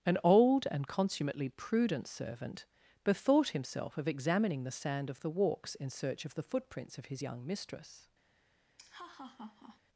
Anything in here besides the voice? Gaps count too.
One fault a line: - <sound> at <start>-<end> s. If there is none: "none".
- laugh at 8.8-9.8 s